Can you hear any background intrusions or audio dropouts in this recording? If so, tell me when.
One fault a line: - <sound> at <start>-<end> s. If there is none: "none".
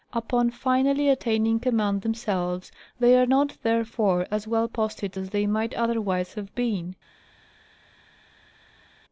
none